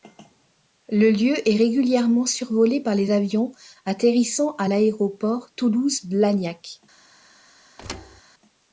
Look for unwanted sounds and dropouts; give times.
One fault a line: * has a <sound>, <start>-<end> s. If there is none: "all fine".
* has a thud, 7.8-8.2 s